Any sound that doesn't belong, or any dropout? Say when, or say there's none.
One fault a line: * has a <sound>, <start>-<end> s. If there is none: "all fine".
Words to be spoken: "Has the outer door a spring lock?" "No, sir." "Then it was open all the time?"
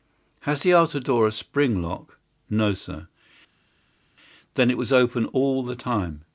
all fine